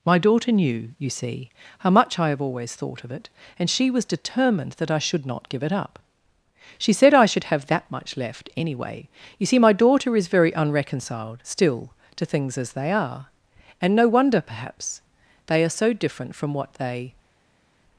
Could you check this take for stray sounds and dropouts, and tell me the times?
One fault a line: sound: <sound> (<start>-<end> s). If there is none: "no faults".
no faults